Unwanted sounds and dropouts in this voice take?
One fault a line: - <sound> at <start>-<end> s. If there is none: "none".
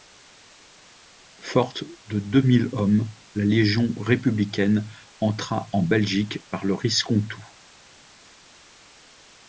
none